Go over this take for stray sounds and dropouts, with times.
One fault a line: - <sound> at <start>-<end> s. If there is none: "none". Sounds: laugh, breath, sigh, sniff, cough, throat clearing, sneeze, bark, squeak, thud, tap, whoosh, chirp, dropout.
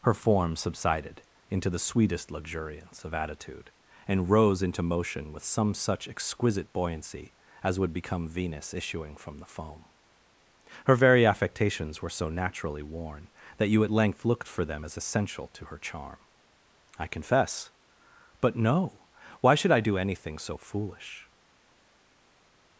none